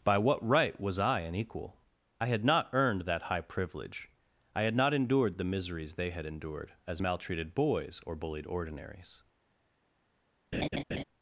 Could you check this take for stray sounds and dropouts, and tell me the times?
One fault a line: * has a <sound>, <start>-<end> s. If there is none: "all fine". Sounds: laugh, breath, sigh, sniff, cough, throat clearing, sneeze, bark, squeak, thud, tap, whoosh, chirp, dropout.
* has a laugh, 10.5-11.0 s